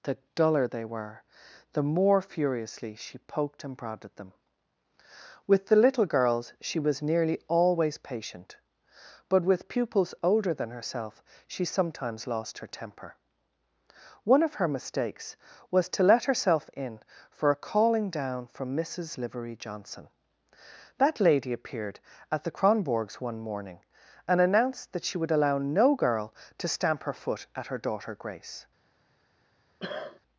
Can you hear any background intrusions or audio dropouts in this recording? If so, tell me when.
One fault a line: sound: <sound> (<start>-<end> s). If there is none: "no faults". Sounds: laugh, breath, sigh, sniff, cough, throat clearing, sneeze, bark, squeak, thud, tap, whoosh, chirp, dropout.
sound: cough (29.8-30.2 s)